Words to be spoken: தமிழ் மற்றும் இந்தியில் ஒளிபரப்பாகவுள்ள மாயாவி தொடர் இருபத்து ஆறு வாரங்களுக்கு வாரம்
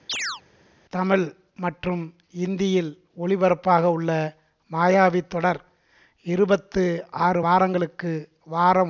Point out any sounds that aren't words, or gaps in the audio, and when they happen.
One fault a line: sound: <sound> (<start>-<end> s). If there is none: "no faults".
sound: chirp (0.1-0.4 s)